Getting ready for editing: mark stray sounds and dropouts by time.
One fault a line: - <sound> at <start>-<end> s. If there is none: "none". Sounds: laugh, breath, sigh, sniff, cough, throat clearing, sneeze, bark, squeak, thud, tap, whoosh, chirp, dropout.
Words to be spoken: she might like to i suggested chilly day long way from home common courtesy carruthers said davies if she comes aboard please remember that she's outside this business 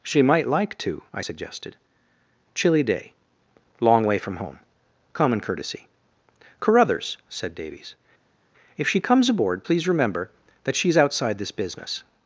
none